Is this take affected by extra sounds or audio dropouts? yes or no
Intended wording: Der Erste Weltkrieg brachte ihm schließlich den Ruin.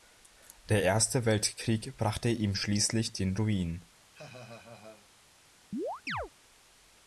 yes